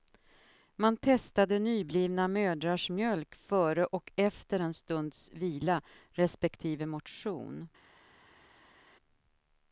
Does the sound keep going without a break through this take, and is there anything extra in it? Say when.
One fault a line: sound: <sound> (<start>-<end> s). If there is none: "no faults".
no faults